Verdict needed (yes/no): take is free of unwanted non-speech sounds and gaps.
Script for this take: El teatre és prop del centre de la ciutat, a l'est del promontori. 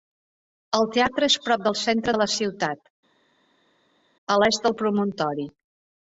yes